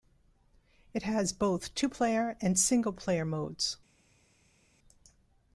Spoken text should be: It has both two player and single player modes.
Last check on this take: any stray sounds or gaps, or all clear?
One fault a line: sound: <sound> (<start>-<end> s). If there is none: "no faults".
no faults